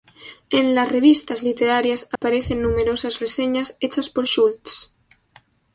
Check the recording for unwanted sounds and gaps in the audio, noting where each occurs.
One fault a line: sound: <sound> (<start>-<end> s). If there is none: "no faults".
sound: dropout (2.2-2.2 s)